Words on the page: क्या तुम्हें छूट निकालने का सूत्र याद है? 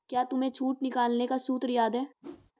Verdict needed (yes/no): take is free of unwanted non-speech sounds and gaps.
no